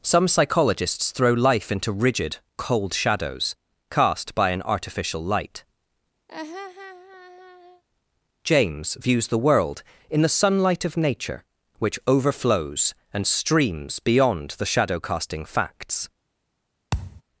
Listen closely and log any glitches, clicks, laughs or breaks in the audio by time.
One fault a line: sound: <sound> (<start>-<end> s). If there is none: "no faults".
sound: laugh (6.3-7.8 s)
sound: thud (16.9-17.2 s)